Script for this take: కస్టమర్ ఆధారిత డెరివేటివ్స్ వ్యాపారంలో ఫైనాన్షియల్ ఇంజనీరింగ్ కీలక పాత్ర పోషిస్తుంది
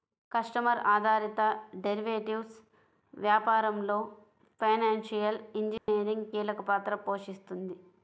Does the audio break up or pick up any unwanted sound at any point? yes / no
yes